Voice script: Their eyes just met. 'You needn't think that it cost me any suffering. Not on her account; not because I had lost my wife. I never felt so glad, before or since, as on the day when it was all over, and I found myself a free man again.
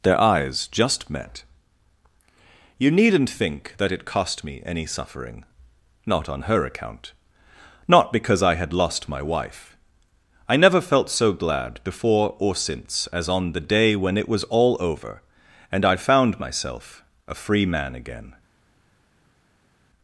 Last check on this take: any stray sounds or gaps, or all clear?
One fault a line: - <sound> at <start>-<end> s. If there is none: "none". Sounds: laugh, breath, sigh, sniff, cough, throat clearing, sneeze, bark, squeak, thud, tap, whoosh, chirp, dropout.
none